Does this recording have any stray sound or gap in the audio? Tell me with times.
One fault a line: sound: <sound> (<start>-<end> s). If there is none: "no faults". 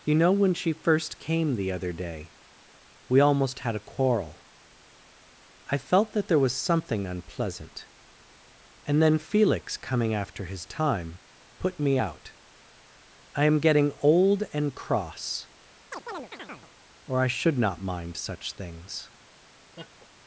sound: chirp (15.9-16.7 s)
sound: laugh (19.8-20.1 s)